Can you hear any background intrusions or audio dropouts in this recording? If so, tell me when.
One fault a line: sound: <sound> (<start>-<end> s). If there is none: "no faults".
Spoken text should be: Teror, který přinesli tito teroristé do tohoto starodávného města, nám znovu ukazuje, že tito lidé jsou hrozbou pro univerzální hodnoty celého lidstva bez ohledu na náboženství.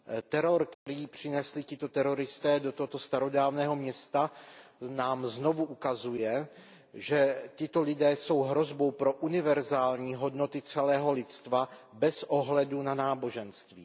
sound: dropout (0.7-0.9 s)